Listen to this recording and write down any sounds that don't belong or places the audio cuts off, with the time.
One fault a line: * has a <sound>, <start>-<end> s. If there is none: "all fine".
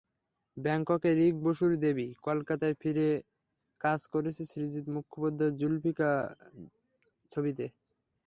all fine